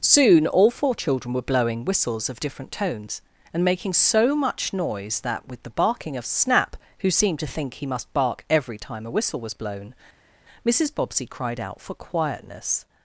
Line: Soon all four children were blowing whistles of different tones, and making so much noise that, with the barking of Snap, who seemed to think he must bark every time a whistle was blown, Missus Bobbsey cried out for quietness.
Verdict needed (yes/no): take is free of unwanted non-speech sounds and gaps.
yes